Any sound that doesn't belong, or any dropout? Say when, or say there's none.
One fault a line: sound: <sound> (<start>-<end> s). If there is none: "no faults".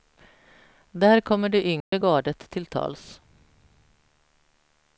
sound: dropout (1.8-1.9 s)